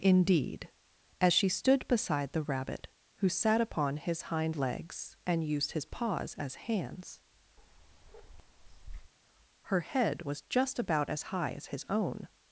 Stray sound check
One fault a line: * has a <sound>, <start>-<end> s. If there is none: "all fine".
* has a bark, 7.6-9.1 s